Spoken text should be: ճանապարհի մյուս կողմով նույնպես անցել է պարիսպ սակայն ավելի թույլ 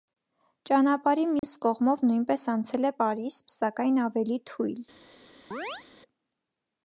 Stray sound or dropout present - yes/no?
yes